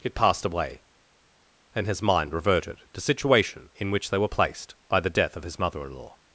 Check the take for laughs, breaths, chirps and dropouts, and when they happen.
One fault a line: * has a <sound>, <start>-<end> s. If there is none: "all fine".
all fine